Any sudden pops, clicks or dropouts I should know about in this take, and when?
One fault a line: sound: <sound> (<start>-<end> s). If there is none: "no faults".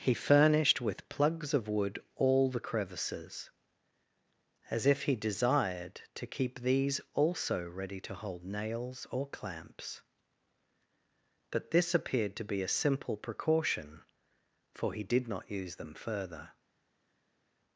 no faults